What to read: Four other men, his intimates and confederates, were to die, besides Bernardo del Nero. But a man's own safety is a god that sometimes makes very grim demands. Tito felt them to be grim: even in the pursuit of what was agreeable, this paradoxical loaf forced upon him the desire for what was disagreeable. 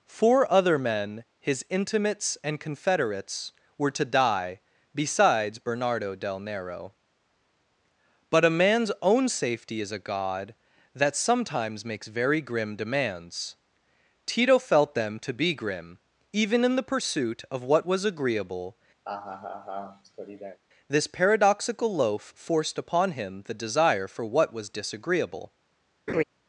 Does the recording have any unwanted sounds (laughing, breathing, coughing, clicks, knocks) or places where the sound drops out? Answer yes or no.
yes